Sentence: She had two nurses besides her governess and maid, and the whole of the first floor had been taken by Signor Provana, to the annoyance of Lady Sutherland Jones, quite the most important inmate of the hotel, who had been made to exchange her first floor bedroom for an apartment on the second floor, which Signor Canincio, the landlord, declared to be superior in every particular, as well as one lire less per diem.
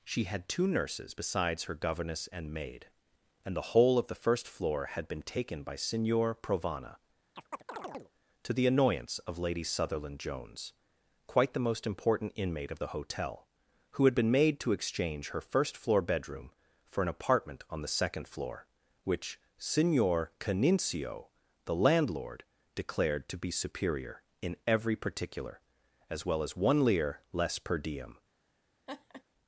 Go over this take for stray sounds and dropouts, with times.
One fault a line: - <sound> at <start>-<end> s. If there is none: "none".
- chirp at 7.4-8.1 s
- laugh at 28.9-29.2 s